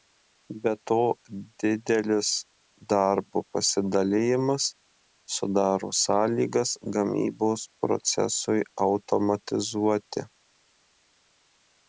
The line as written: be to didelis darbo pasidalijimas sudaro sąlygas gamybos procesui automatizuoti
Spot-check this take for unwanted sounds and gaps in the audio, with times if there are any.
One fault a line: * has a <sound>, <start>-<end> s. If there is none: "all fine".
all fine